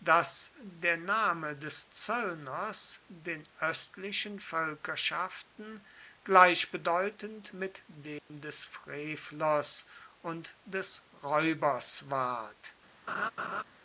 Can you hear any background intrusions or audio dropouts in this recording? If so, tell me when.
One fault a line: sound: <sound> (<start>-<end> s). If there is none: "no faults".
sound: dropout (8.2-8.3 s)
sound: laugh (13.1-13.6 s)